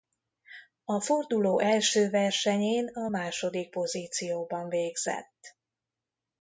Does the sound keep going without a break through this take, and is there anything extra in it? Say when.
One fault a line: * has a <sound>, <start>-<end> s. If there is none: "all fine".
all fine